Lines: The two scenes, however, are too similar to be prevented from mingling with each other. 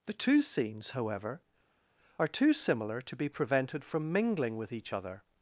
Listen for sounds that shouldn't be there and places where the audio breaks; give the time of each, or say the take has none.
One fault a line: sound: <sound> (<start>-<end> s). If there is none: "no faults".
no faults